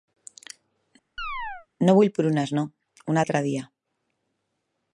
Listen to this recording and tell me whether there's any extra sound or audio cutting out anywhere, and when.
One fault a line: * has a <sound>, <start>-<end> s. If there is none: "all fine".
* has a chirp, 1.2-1.7 s